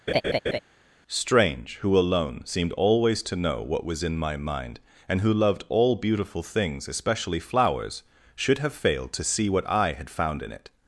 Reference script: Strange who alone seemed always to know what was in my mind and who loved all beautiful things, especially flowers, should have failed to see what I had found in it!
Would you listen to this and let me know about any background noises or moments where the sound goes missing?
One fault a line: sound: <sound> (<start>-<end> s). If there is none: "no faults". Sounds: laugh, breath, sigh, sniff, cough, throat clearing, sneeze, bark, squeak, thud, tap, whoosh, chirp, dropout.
sound: laugh (0.1-0.6 s)